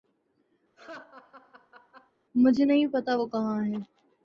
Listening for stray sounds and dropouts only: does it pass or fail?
fail